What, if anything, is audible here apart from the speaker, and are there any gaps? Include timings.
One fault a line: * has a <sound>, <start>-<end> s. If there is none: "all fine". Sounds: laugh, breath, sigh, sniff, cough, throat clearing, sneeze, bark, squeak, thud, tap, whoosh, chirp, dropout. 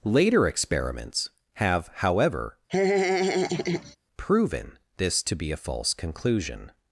* has a laugh, 2.7-4.0 s